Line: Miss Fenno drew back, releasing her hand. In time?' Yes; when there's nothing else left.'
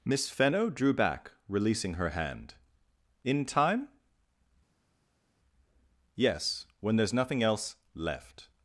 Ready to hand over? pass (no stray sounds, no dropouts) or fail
pass